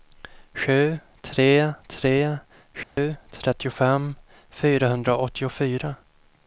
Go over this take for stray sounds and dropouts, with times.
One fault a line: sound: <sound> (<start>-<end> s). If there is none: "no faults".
sound: dropout (2.8-3.0 s)